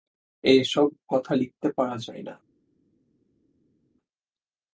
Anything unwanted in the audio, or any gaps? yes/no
no